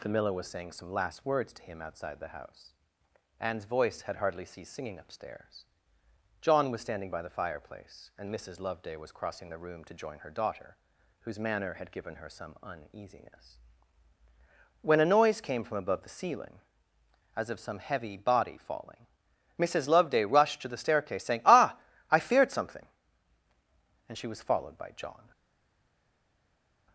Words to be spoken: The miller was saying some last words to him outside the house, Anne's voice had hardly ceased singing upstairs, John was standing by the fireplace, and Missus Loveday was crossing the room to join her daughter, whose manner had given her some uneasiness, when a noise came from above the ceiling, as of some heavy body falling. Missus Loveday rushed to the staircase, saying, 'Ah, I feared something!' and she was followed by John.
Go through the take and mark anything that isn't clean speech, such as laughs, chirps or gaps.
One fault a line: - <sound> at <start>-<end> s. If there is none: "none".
none